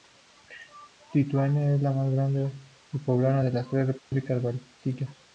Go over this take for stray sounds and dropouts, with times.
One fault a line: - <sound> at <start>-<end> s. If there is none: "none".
- dropout at 4.0-4.1 s